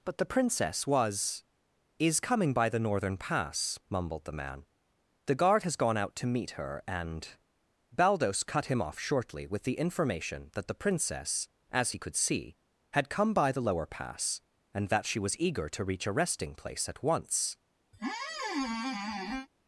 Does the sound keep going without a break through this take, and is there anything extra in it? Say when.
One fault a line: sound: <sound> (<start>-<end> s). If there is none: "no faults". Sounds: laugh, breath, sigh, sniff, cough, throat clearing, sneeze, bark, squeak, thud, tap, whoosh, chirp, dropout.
sound: squeak (17.9-19.5 s)